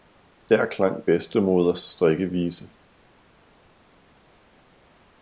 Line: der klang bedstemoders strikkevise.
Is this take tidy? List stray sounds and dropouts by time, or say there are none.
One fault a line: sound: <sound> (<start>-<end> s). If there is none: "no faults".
no faults